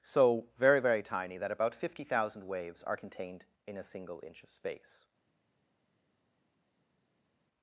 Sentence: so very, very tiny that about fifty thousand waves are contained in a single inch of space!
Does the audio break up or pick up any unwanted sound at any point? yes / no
no